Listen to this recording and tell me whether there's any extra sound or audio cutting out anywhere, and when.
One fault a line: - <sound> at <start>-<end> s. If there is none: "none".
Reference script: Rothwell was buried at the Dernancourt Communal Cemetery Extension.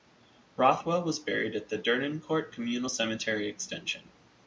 none